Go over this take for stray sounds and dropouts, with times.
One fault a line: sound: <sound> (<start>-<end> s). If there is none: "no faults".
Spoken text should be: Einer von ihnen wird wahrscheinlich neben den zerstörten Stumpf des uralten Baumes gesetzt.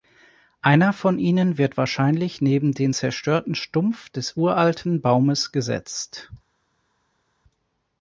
no faults